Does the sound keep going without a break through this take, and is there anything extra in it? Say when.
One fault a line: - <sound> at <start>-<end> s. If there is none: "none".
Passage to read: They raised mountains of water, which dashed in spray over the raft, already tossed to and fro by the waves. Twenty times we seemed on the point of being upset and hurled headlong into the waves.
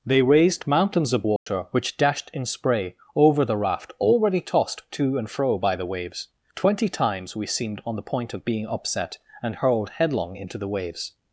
- dropout at 1.4-1.5 s